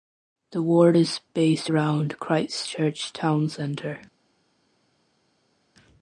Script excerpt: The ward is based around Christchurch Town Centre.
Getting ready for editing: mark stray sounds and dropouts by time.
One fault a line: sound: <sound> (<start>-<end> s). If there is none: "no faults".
no faults